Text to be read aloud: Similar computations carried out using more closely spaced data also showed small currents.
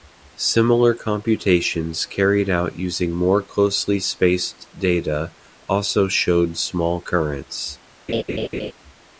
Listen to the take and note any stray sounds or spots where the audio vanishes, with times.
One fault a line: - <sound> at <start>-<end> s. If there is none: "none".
- laugh at 8.1-8.7 s